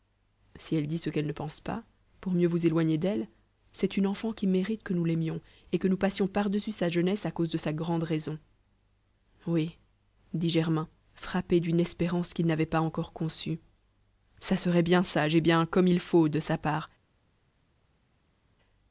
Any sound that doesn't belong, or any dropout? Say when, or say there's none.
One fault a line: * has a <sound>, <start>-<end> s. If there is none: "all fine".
all fine